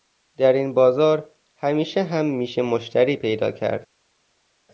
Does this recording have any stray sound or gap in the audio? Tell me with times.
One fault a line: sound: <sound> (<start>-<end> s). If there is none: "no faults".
no faults